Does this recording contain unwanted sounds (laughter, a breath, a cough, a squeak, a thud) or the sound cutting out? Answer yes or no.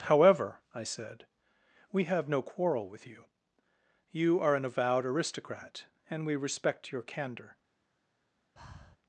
yes